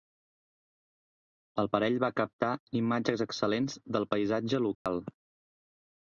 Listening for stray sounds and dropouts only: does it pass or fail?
fail